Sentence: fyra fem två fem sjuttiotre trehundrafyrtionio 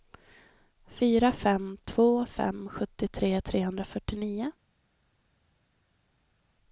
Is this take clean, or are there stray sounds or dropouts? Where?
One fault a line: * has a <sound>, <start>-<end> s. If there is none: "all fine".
all fine